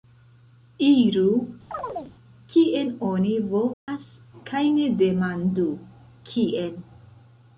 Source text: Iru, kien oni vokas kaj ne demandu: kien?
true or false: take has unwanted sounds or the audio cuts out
true